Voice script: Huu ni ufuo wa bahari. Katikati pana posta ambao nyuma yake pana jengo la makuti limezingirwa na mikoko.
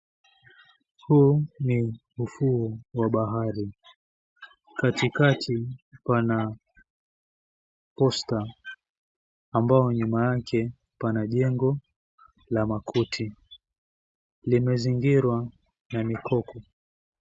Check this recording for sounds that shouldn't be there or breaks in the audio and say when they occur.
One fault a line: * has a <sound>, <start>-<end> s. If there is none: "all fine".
all fine